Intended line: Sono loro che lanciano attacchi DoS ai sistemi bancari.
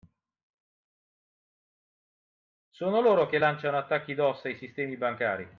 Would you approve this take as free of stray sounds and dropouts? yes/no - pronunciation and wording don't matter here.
yes